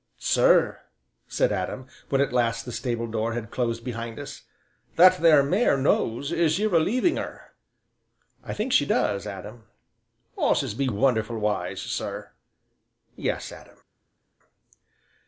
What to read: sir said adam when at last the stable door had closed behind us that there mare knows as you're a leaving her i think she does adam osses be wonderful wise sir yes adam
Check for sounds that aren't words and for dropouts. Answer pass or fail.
pass